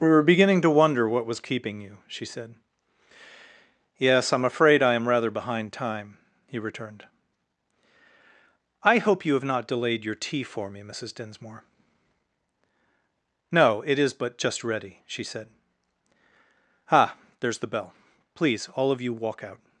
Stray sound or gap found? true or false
false